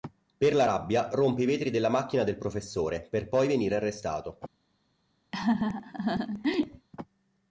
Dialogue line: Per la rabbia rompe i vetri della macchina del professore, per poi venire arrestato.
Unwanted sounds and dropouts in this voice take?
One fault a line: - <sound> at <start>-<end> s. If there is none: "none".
- laugh at 5.3-6.9 s